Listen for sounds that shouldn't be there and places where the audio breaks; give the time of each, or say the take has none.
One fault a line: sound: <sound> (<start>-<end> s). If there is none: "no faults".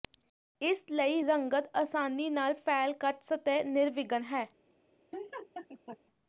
sound: laugh (5.1-6.0 s)